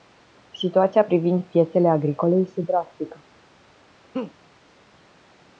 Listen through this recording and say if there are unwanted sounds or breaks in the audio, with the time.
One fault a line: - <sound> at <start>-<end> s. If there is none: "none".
- laugh at 4.1-4.3 s